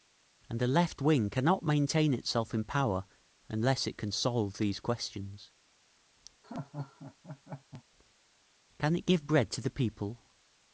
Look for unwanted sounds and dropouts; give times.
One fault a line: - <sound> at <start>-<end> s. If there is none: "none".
- laugh at 6.4-7.8 s